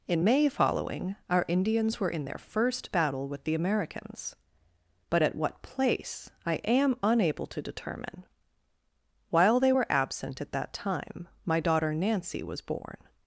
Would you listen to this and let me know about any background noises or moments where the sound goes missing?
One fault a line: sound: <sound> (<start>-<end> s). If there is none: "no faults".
no faults